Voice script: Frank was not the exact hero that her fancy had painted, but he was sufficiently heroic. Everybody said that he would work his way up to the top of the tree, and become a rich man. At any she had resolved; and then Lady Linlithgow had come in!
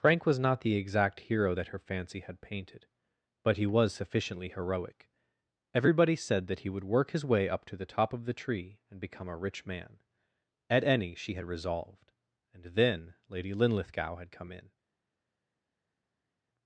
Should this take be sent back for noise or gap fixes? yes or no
no